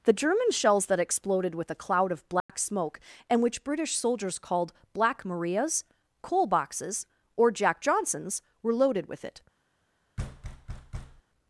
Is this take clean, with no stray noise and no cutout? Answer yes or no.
no